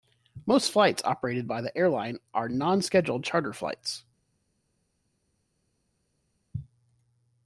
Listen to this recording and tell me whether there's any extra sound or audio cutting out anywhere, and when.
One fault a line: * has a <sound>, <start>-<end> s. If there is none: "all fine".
all fine